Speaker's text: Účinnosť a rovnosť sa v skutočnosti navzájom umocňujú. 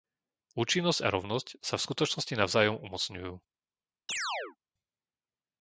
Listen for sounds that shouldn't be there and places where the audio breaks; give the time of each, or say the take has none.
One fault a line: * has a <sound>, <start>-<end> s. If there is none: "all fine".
* has a chirp, 4.1-4.6 s